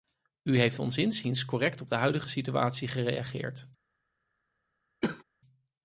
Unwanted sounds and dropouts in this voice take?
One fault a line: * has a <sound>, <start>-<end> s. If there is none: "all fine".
* has a cough, 5.0-5.2 s